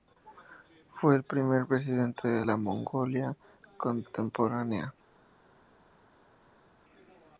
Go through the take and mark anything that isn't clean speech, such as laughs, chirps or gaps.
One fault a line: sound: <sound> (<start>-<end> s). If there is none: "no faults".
no faults